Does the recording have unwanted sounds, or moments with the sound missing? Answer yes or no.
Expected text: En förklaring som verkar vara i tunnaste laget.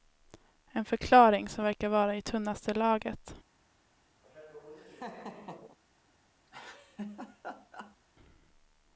yes